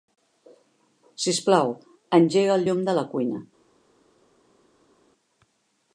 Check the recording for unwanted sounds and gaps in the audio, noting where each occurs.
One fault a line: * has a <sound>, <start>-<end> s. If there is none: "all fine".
all fine